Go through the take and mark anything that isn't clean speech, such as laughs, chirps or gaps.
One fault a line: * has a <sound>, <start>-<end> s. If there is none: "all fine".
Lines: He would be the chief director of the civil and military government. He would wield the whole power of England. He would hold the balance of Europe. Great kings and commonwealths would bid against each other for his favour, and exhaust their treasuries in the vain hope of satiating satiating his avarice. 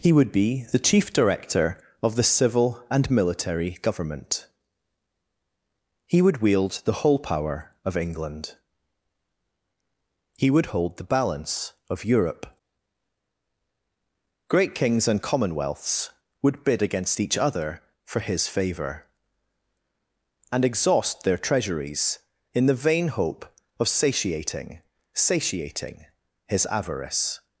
all fine